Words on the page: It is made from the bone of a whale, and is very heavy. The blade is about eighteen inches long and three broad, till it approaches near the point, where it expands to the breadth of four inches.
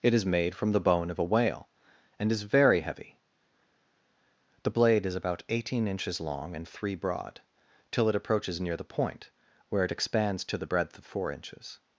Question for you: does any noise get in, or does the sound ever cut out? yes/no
no